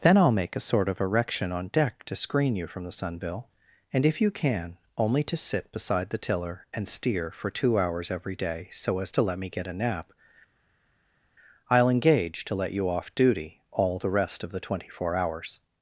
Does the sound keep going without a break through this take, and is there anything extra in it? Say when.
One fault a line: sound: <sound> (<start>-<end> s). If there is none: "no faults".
no faults